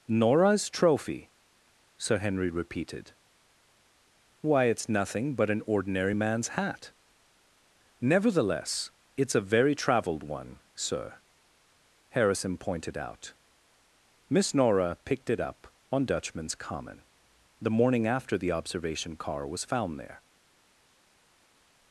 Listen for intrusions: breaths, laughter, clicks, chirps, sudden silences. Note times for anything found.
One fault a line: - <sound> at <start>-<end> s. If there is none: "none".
none